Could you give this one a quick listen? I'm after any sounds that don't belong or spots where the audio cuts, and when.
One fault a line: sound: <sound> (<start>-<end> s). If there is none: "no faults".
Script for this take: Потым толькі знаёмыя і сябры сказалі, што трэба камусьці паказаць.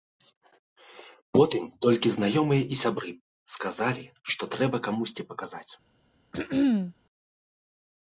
sound: throat clearing (6.3-6.9 s)